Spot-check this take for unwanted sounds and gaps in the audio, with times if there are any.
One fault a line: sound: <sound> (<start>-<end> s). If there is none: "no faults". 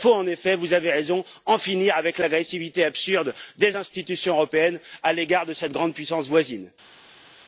no faults